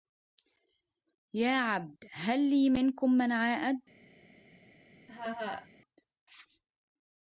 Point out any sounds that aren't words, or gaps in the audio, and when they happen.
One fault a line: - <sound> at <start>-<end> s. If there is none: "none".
- laugh at 5.1-5.7 s